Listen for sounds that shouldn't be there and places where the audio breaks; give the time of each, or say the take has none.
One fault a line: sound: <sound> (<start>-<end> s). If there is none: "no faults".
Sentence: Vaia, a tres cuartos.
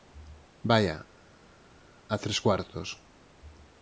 no faults